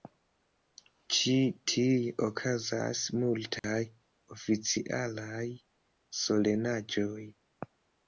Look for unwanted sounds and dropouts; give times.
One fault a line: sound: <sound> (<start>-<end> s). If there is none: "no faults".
sound: dropout (3.6-3.6 s)